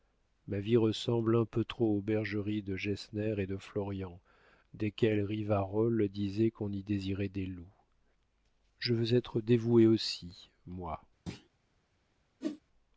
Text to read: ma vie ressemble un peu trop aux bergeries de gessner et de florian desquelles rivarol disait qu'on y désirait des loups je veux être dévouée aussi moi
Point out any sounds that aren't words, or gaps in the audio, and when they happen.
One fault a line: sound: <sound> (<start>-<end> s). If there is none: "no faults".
sound: thud (11.3-11.5 s)
sound: whoosh (12.4-12.6 s)